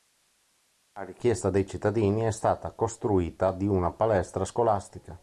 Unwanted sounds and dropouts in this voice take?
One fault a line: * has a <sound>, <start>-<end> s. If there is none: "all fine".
all fine